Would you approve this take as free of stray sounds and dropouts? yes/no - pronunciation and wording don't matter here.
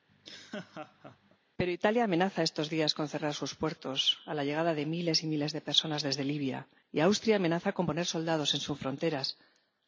no